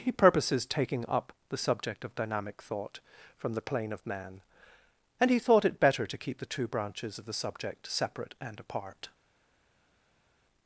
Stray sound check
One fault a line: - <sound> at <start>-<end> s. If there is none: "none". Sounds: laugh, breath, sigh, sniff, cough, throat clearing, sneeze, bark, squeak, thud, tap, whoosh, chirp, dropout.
none